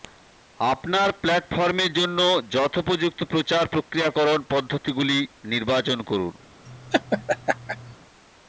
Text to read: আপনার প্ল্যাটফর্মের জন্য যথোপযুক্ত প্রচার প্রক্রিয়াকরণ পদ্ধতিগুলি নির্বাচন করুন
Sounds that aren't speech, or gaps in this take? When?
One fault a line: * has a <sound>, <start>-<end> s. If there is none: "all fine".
* has a laugh, 6.7-8.0 s